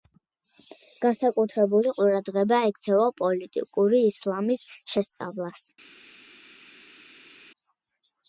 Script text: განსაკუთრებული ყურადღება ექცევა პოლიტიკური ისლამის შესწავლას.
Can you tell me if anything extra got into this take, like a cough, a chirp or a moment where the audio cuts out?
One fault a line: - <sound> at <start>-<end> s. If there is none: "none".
none